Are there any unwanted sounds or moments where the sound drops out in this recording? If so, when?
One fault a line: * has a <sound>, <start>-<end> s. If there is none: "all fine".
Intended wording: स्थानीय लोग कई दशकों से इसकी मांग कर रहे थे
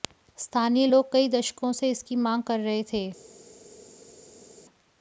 all fine